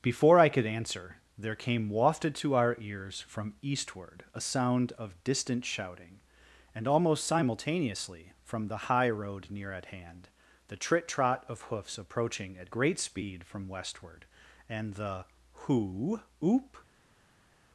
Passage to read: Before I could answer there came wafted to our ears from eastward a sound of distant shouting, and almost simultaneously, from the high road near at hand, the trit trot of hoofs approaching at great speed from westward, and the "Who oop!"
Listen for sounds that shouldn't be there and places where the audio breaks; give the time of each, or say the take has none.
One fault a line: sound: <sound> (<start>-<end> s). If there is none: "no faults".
no faults